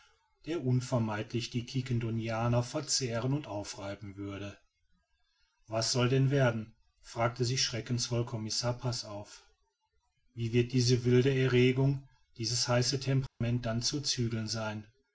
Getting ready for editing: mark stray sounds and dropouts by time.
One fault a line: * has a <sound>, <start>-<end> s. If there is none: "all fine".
* has a dropout, 13.3-13.4 s